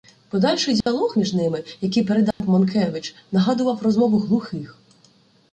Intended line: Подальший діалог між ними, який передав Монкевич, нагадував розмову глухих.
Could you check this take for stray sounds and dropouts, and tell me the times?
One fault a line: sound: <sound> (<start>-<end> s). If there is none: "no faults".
sound: dropout (0.8-0.9 s)
sound: dropout (2.3-2.4 s)